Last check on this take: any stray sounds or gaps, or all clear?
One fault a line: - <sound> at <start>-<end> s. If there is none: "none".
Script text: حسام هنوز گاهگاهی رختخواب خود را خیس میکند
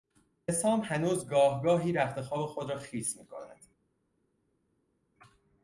none